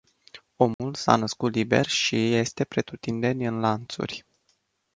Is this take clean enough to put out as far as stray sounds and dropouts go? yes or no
no